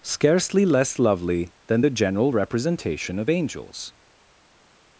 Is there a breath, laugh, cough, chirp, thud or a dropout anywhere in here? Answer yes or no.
no